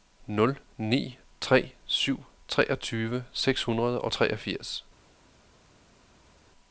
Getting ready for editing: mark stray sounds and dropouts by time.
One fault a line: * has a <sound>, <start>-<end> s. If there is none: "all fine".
all fine